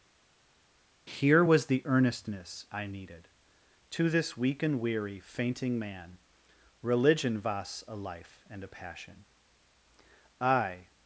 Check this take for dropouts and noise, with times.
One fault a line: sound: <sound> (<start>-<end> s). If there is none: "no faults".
no faults